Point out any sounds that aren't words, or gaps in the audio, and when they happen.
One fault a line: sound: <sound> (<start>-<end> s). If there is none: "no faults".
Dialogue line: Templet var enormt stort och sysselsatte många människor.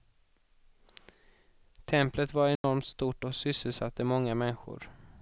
sound: dropout (2.6-2.6 s)